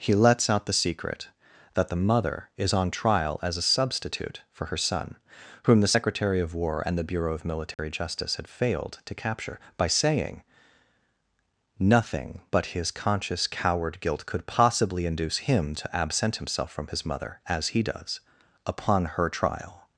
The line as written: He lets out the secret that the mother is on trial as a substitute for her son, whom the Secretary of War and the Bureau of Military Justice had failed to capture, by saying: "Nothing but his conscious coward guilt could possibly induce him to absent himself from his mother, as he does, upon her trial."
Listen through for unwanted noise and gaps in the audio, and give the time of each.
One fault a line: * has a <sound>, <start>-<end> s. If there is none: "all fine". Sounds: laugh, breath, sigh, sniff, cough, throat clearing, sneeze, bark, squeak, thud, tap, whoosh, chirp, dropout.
* has a dropout, 7.7-7.8 s